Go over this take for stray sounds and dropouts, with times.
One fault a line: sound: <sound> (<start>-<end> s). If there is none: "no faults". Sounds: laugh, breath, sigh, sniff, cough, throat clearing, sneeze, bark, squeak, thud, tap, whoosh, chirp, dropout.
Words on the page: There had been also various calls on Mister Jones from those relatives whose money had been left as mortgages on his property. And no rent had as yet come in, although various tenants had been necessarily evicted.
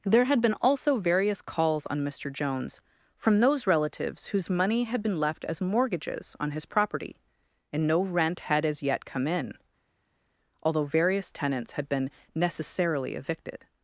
no faults